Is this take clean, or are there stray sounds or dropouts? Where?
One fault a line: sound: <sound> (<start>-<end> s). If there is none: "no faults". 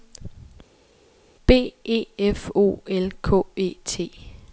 no faults